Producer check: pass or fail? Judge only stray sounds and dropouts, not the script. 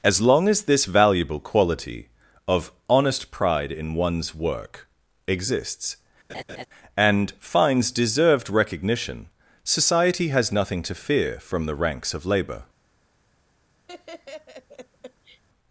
fail